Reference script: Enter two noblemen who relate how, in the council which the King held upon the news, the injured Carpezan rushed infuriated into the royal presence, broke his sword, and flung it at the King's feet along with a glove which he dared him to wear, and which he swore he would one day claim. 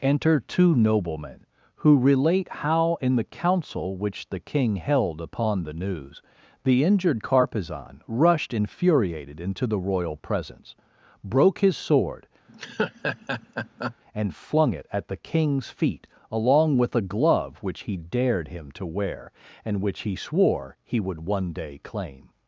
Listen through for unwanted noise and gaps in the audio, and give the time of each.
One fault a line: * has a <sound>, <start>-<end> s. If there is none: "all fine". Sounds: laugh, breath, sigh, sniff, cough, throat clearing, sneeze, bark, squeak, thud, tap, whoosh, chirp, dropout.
* has a laugh, 12.5-14.0 s